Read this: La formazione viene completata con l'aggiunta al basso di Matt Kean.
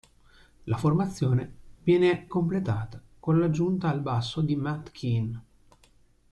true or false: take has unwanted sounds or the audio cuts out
false